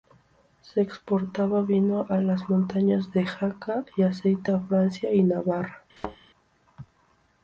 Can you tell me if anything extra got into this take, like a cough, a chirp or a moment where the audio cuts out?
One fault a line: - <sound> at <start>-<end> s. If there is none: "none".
- thud at 6.0-6.2 s